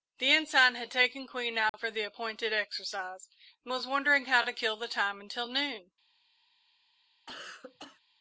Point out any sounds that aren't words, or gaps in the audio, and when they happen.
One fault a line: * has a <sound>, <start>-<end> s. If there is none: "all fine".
* has a dropout, 1.7-1.7 s
* has a cough, 7.3-8.0 s